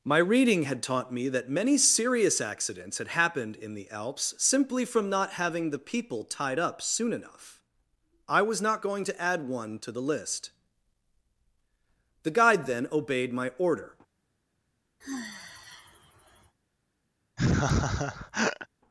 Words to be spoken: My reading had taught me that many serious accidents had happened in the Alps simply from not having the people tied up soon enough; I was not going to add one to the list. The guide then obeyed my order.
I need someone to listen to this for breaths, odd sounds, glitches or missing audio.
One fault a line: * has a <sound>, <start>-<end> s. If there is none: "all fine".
* has a sigh, 15.0-16.6 s
* has a laugh, 17.4-18.7 s